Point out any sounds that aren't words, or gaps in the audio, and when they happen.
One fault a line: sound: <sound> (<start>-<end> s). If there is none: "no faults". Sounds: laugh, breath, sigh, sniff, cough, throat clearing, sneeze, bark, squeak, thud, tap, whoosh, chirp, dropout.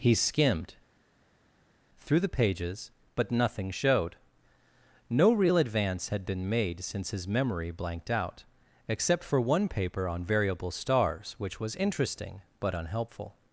no faults